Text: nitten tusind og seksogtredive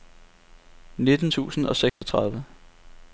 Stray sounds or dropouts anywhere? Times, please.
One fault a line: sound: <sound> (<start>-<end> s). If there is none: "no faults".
sound: dropout (1.9-2.0 s)